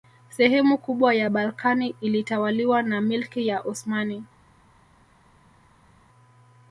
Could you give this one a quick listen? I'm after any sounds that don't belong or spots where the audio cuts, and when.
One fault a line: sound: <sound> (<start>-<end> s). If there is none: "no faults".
no faults